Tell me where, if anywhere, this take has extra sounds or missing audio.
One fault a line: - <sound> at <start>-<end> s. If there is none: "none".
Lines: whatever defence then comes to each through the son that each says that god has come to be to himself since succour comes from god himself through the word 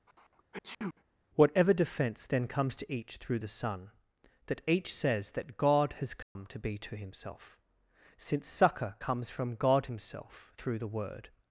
- sneeze at 0.1-1.0 s
- dropout at 6.2-6.4 s